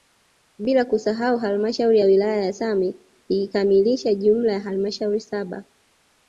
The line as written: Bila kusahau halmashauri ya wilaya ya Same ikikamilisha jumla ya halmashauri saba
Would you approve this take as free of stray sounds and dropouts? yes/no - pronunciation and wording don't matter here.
yes